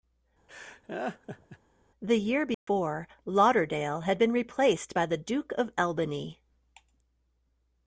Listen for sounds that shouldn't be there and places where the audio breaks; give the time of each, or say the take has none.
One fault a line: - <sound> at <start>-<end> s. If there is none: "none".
- laugh at 0.5-1.6 s
- dropout at 2.5-2.7 s